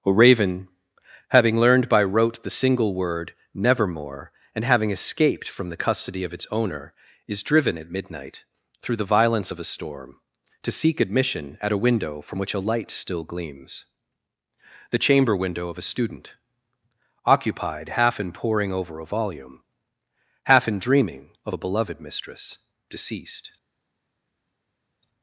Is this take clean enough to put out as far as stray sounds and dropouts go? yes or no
yes